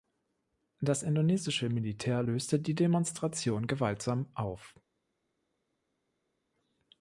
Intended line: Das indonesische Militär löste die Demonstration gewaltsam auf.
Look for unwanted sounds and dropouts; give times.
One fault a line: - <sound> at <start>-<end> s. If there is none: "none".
none